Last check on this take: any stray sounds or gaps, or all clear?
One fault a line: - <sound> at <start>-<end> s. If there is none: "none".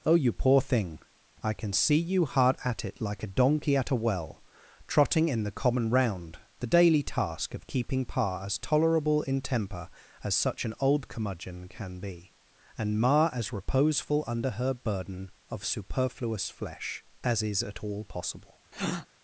- breath at 18.7-19.1 s